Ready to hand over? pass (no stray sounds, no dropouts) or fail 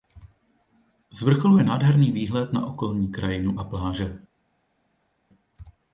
pass